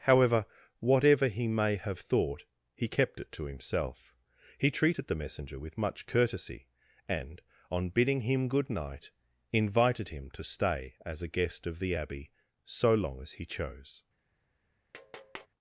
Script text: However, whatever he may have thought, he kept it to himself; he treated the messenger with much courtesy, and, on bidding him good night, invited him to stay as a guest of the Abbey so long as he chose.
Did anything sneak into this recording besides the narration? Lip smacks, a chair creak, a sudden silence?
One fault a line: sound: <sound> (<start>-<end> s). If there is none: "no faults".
sound: tap (14.9-15.5 s)